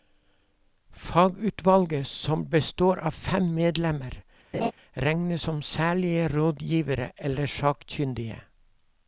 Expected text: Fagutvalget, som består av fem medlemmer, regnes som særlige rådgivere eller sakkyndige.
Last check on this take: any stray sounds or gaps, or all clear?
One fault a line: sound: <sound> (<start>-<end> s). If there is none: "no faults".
sound: laugh (4.5-4.7 s)